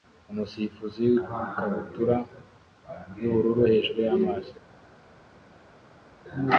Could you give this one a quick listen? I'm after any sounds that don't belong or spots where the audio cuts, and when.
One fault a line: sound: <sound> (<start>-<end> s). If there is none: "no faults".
no faults